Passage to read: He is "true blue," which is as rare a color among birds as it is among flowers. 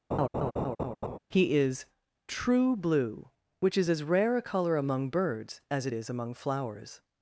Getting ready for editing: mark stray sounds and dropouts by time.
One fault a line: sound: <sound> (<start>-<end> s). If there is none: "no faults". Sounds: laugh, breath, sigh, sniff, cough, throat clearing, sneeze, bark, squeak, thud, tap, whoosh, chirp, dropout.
sound: laugh (0.1-1.2 s)